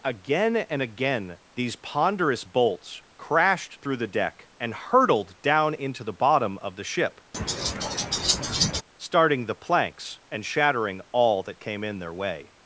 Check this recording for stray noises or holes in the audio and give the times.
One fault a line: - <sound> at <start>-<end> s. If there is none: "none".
- laugh at 7.3-8.8 s